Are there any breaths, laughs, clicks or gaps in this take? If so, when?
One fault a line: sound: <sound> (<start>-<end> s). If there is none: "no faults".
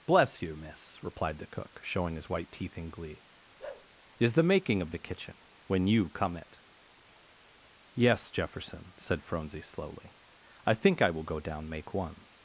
sound: bark (3.6-3.9 s)